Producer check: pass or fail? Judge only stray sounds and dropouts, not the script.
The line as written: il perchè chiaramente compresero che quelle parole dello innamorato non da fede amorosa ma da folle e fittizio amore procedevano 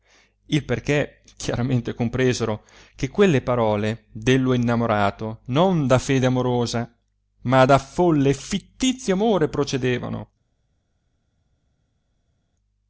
pass